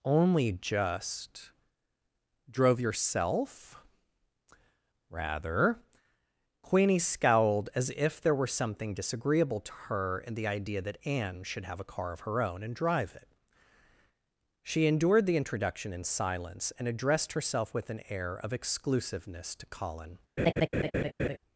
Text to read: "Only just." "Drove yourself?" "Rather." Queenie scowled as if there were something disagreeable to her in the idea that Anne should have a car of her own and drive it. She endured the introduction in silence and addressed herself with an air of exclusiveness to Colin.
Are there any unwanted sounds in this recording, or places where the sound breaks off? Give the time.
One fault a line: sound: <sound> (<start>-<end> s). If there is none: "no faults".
sound: laugh (20.4-21.4 s)